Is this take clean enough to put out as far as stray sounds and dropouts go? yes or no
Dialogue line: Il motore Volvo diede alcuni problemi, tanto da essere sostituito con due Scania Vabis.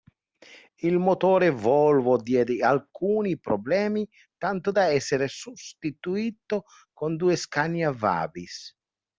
yes